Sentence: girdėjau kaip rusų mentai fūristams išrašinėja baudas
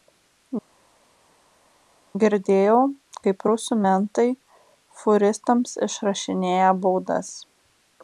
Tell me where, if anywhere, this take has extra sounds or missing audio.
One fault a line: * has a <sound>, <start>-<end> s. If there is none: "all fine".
all fine